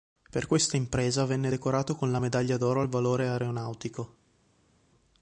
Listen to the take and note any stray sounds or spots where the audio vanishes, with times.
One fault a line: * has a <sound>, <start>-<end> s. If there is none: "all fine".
all fine